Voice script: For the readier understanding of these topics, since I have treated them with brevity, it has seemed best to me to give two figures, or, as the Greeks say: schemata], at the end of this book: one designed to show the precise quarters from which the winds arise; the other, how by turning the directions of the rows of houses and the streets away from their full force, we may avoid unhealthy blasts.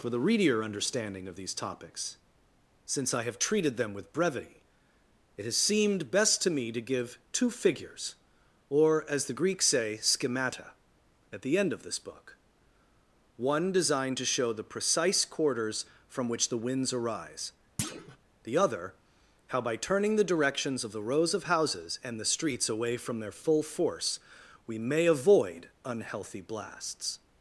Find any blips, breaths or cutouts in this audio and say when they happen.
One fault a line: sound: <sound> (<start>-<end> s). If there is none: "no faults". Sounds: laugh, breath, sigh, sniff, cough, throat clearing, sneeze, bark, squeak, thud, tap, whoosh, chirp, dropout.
sound: thud (17.8-18.2 s)